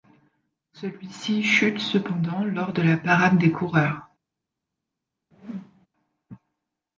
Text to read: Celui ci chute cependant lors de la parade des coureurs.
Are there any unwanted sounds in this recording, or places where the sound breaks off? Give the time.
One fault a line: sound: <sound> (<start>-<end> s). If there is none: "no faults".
sound: whoosh (5.3-5.9 s)